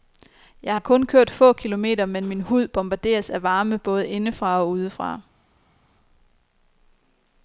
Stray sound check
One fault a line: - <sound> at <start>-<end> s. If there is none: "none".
none